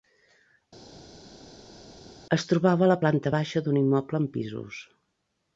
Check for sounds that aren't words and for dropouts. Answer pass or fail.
pass